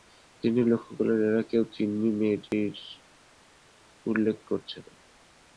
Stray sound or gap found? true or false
true